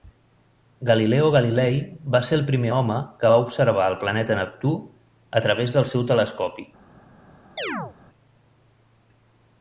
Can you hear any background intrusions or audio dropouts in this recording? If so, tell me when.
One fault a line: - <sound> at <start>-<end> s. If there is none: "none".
- chirp at 7.6-7.9 s